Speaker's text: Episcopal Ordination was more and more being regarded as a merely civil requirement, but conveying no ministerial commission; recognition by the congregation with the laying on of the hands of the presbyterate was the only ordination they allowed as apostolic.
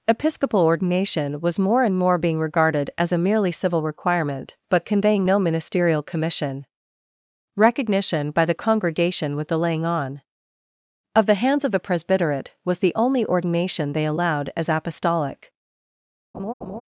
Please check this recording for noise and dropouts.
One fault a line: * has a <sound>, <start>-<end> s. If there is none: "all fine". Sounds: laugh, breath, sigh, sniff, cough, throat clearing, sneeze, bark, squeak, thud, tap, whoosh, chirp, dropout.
* has a laugh, 16.3-16.8 s